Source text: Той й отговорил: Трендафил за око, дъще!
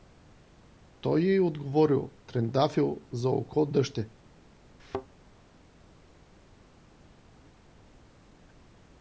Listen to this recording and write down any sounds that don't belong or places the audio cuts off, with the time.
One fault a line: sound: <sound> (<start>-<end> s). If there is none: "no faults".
sound: thud (4.8-5.1 s)